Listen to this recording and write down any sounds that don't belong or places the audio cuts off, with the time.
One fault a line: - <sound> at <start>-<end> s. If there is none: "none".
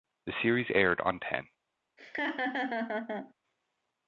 - laugh at 2.0-3.3 s